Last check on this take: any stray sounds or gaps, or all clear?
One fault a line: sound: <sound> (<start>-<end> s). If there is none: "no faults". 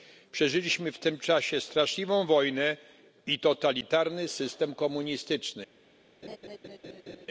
sound: laugh (6.2-7.3 s)